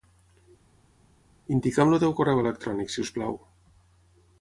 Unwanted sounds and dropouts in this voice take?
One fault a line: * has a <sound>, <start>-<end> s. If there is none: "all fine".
all fine